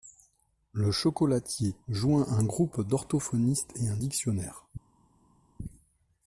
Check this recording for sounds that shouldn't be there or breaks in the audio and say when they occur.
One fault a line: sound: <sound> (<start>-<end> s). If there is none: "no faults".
no faults